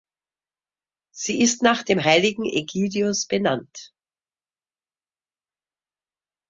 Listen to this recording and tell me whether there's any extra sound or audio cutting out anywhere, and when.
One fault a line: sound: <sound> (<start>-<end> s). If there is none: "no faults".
no faults